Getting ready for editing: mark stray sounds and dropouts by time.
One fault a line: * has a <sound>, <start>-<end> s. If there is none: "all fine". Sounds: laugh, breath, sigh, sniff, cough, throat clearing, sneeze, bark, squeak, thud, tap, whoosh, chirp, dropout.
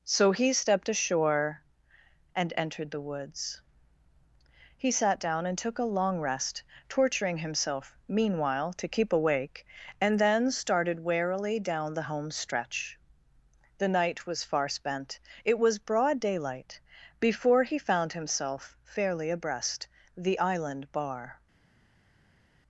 all fine